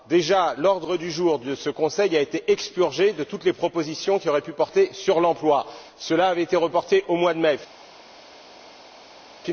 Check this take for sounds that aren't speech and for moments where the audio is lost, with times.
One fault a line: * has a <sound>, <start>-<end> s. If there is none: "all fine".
all fine